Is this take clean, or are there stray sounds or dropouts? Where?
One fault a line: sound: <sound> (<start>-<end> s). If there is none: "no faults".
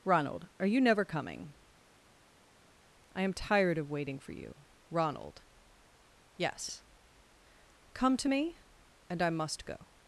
no faults